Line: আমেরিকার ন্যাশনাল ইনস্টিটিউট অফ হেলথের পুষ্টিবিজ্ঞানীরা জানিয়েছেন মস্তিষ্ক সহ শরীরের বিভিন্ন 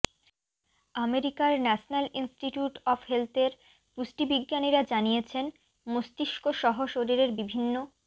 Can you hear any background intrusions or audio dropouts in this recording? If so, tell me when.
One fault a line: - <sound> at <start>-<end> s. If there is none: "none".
none